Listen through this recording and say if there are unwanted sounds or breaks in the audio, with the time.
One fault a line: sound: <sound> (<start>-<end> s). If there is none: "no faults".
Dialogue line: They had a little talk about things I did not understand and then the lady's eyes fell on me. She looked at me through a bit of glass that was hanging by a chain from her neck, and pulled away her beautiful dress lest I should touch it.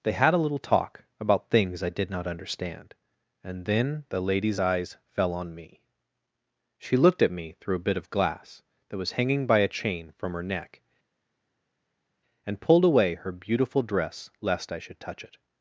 no faults